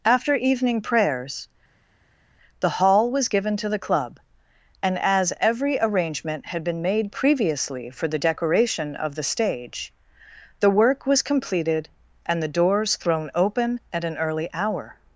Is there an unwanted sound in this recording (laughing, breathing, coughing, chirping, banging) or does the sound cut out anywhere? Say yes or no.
no